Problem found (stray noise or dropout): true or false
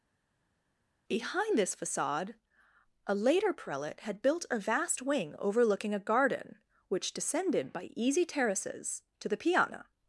false